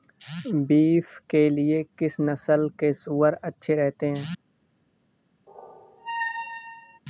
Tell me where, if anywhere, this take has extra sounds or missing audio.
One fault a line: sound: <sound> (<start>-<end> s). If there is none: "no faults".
sound: squeak (5.5-7.0 s)